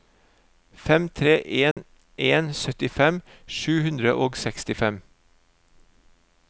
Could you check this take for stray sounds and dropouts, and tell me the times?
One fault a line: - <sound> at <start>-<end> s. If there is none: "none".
- dropout at 1.7-1.8 s